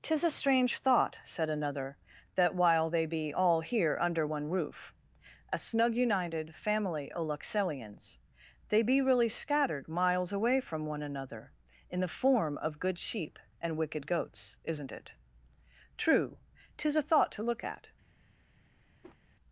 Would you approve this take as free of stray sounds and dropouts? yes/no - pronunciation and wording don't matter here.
no